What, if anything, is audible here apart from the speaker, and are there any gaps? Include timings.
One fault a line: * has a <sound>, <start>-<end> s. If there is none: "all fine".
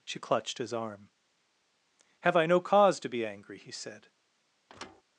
* has a thud, 4.7-5.0 s